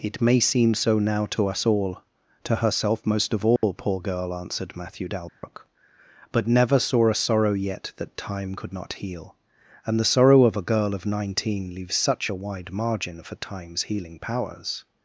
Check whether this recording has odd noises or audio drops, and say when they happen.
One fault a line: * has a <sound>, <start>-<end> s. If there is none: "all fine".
* has a dropout, 3.6-3.6 s
* has a dropout, 5.3-5.4 s